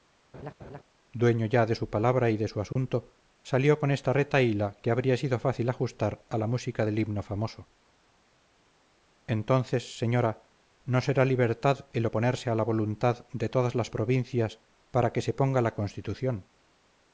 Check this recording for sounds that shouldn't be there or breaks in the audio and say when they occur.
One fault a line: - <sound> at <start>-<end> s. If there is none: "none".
- laugh at 0.3-0.8 s
- dropout at 2.7-2.8 s